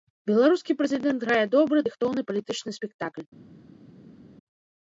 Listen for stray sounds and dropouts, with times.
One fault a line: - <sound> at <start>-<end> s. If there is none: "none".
none